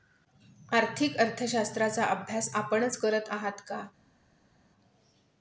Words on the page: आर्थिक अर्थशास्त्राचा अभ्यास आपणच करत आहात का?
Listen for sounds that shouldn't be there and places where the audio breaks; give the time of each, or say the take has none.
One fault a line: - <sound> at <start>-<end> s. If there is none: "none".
none